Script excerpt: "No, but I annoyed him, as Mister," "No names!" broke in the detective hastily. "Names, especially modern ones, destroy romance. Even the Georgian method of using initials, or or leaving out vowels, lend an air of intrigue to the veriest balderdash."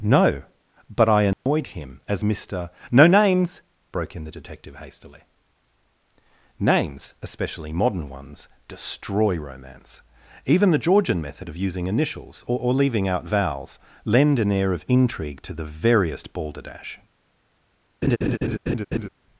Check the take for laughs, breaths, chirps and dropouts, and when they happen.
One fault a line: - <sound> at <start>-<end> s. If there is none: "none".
- dropout at 1.3-1.5 s
- laugh at 18.0-19.1 s